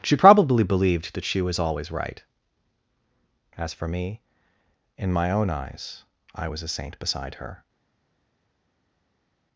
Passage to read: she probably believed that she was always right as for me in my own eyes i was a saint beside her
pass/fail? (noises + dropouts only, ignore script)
pass